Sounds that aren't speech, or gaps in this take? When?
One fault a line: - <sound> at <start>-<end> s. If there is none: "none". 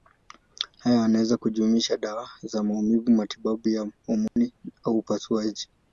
- dropout at 4.3-4.4 s